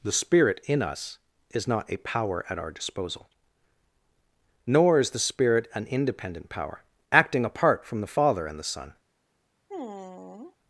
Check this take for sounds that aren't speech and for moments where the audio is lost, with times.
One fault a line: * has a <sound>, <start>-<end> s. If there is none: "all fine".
* has a sigh, 9.7-10.6 s